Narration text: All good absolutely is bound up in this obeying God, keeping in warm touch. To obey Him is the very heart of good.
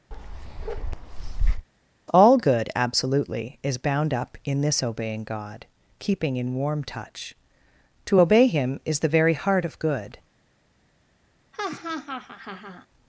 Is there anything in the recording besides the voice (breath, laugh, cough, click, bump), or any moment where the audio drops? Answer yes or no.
yes